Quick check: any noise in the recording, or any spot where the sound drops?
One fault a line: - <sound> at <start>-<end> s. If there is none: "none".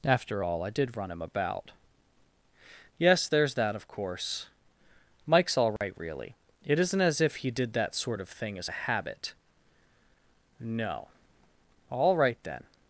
- dropout at 5.8-5.8 s